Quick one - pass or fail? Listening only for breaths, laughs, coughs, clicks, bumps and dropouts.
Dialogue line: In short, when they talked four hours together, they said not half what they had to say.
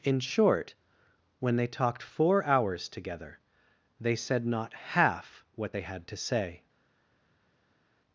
pass